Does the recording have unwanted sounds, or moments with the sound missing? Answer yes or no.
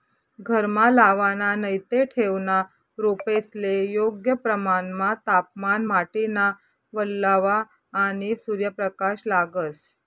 no